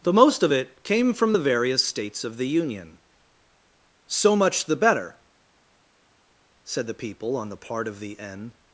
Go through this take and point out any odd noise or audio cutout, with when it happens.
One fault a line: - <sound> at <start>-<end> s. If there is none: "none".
none